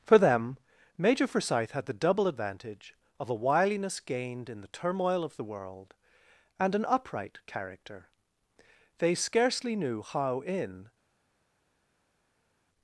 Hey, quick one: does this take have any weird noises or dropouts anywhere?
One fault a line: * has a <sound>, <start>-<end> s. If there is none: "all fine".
all fine